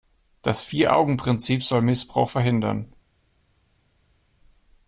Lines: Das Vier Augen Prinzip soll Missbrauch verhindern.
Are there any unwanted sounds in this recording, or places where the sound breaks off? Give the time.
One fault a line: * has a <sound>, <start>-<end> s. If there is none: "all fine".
all fine